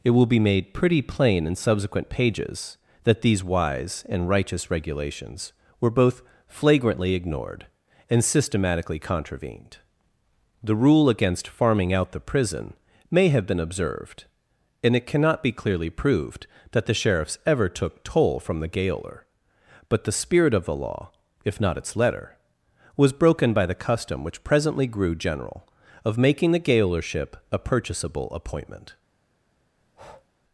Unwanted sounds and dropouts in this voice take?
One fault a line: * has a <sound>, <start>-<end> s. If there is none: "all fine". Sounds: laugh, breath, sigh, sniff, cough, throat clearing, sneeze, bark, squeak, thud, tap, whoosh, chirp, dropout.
* has a breath, 29.8-30.3 s